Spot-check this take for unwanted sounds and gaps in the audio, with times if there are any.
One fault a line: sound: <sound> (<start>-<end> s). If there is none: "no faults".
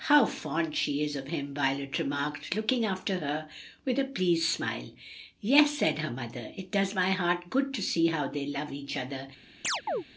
sound: chirp (9.6-10.0 s)